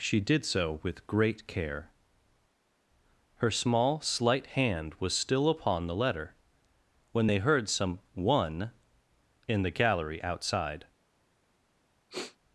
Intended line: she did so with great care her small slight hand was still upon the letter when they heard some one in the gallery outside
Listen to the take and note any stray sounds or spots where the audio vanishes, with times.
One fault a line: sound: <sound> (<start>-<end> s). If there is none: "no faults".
sound: sniff (12.1-12.4 s)